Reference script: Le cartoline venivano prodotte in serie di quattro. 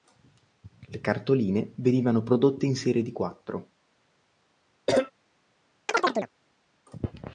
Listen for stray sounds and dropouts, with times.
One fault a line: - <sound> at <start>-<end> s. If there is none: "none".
- cough at 4.9-5.1 s
- chirp at 5.9-6.3 s